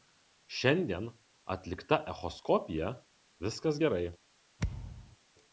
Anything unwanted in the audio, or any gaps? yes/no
yes